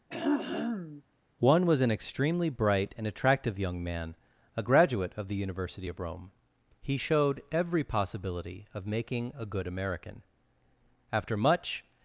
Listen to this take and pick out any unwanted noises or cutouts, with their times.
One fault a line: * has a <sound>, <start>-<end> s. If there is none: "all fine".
* has a throat clearing, 0.1-1.0 s